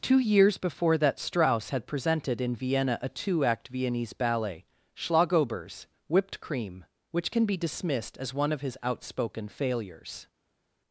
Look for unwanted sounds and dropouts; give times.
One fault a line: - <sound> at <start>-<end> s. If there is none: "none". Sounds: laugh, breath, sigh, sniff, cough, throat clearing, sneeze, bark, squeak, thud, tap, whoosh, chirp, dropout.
none